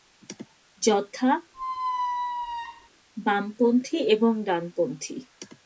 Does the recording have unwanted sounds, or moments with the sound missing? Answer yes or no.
yes